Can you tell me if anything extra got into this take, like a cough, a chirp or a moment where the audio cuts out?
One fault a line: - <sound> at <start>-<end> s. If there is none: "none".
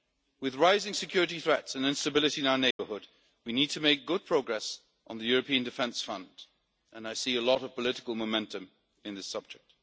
- dropout at 2.7-2.8 s